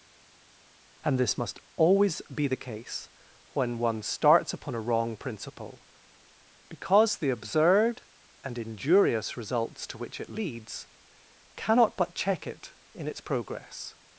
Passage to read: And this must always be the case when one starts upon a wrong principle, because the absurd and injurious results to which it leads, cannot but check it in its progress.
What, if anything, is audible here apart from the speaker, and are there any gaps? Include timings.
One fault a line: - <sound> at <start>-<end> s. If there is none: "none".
none